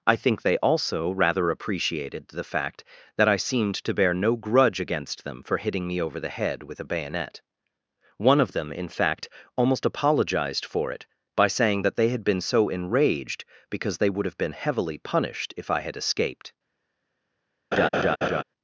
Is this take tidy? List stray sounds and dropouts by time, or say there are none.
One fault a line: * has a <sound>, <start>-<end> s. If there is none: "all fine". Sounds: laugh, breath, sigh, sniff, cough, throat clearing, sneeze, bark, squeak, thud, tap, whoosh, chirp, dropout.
* has a laugh, 17.7-18.4 s